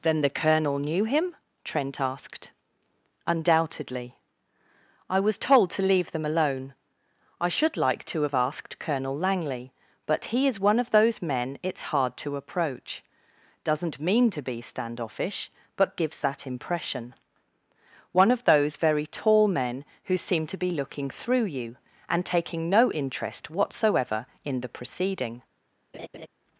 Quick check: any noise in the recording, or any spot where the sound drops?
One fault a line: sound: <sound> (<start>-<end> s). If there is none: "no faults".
sound: laugh (25.9-26.3 s)